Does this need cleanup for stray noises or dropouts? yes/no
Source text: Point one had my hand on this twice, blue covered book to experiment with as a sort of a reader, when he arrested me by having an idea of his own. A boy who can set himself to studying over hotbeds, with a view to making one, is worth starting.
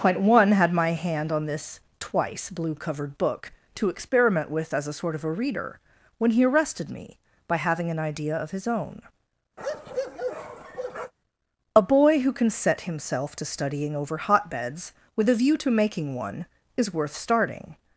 yes